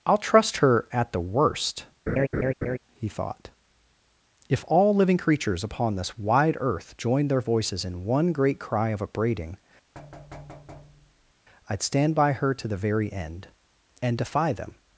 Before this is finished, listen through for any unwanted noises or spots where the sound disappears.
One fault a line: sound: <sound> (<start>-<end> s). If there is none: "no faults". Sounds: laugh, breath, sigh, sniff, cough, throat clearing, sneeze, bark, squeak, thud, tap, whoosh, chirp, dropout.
sound: laugh (2.1-2.8 s)
sound: thud (9.9-11.3 s)